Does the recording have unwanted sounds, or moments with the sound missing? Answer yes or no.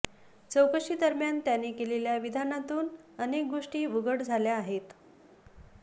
no